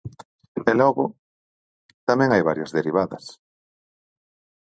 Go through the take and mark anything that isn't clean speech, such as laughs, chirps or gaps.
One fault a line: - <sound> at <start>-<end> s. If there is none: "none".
none